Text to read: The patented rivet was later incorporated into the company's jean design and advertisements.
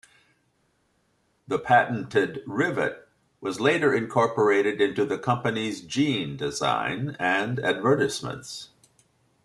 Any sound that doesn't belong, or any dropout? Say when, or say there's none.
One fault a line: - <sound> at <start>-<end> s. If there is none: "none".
none